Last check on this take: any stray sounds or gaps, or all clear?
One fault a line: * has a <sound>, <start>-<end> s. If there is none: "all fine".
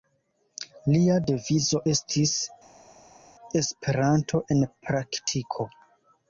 all fine